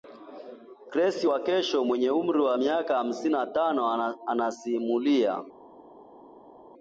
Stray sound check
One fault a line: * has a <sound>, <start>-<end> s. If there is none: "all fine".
all fine